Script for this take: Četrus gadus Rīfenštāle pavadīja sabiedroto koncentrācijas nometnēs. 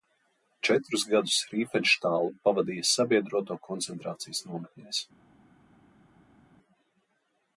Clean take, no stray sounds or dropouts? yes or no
yes